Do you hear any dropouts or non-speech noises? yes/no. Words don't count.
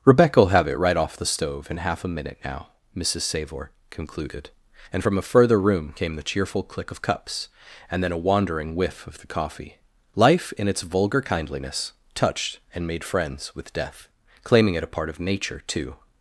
no